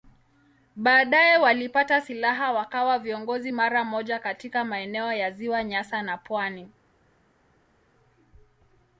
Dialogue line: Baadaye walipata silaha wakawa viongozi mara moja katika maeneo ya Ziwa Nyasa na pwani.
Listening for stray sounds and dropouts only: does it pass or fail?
pass